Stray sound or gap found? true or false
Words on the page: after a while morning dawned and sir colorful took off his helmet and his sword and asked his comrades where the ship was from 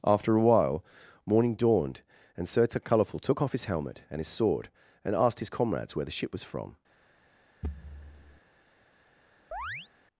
true